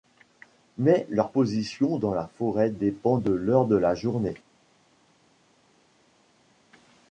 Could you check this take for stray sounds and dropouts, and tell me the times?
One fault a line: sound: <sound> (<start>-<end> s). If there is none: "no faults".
no faults